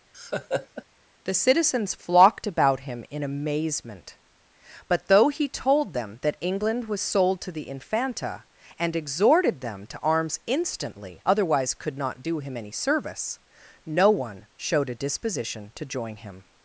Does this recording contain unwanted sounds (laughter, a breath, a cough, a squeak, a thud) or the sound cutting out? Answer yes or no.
yes